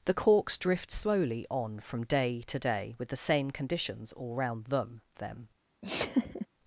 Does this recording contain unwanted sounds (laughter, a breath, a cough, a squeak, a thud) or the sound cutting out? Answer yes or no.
yes